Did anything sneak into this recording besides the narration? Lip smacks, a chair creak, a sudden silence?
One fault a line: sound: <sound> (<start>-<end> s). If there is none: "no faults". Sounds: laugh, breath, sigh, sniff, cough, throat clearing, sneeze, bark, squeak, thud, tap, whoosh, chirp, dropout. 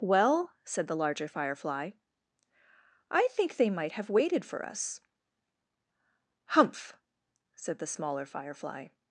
no faults